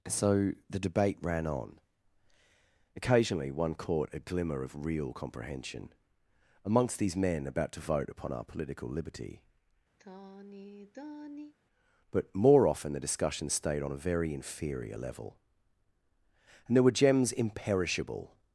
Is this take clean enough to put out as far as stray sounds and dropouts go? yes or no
no